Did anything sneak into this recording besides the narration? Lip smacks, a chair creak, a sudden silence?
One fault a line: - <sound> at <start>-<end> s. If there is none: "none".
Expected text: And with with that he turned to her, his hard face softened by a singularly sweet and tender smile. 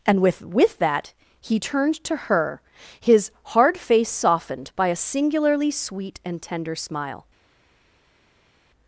none